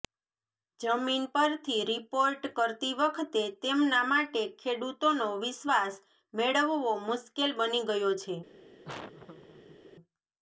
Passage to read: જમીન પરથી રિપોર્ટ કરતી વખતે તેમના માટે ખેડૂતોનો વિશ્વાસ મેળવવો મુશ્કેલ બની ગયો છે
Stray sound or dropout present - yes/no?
yes